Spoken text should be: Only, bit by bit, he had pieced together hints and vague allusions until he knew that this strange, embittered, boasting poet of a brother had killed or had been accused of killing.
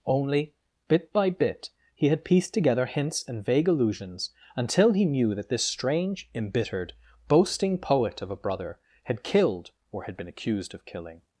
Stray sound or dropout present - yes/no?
no